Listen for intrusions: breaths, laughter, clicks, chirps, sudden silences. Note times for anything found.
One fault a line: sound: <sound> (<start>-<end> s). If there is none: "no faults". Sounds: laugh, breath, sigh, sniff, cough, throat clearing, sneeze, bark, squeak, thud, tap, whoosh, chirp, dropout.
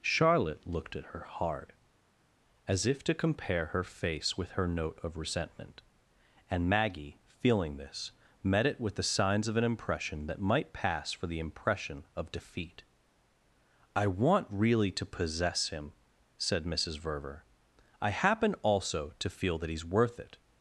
no faults